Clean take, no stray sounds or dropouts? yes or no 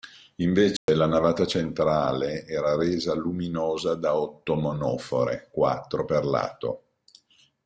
no